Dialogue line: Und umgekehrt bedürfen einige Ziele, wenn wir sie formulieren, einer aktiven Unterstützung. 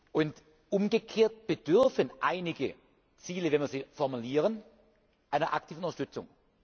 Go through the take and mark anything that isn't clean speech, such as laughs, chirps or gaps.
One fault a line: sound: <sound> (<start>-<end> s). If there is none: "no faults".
no faults